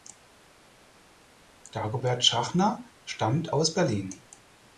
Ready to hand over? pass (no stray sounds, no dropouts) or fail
pass